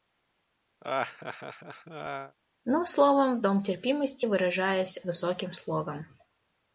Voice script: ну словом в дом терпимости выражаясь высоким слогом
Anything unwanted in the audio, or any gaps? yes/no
yes